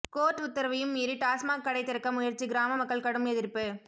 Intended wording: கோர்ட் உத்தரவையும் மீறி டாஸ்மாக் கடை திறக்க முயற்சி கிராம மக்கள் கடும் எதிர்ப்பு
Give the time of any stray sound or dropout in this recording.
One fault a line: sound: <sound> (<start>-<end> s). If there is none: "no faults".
no faults